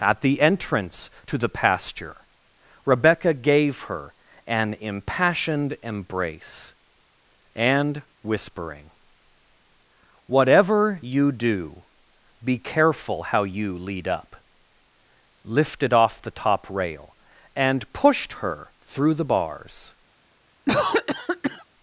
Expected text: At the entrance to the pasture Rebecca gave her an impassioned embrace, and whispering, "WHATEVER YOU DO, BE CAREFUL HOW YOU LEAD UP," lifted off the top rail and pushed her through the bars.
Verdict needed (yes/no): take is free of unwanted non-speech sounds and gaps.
no